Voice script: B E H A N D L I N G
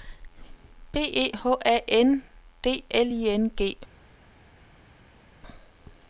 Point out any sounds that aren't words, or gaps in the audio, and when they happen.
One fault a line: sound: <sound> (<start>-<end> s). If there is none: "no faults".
no faults